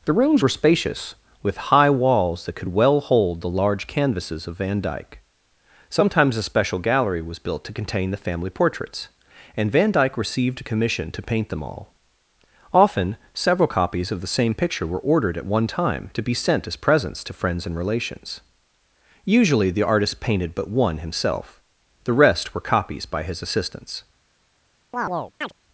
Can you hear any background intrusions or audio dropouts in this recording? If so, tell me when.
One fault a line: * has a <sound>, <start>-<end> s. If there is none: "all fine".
* has a chirp, 24.9-25.5 s